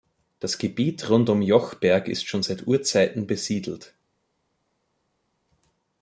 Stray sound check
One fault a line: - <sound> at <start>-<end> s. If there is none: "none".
none